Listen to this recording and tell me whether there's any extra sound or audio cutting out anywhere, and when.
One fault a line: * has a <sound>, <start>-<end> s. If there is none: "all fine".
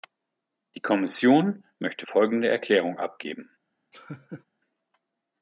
* has a laugh, 3.9-4.4 s